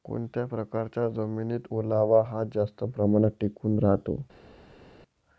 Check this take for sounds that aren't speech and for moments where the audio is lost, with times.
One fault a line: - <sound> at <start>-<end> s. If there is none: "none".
none